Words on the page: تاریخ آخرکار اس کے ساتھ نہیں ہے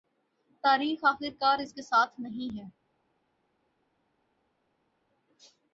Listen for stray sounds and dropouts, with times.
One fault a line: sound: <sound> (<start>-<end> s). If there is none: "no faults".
no faults